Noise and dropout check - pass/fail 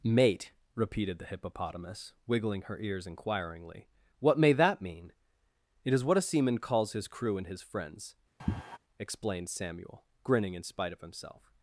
fail